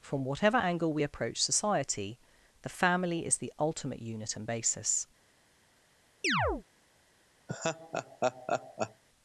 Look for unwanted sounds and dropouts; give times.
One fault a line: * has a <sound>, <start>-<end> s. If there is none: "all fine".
* has a chirp, 6.2-6.6 s
* has a laugh, 7.5-9.0 s